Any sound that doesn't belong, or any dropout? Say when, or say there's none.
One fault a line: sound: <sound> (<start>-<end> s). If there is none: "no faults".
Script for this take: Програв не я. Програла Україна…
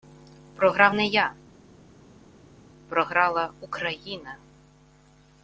no faults